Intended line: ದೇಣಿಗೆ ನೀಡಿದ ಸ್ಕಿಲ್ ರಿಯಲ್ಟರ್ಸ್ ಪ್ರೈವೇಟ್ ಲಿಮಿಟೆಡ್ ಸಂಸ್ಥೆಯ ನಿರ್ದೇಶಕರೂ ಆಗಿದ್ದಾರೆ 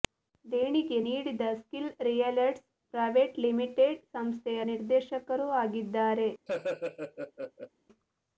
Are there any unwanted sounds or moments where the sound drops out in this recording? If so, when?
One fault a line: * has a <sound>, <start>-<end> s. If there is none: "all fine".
* has a laugh, 6.5-7.7 s